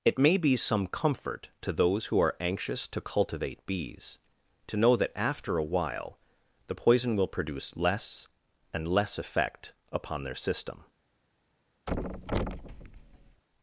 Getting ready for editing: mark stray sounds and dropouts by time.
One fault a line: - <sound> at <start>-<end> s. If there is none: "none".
- thud at 11.9-13.4 s